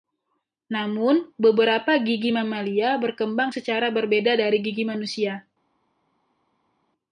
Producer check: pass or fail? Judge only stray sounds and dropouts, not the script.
pass